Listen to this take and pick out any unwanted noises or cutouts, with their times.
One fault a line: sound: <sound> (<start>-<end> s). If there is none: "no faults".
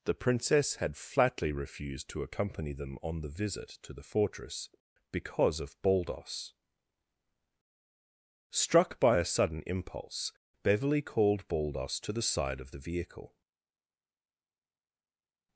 no faults